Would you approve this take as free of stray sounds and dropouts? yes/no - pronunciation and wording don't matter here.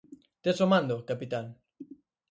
yes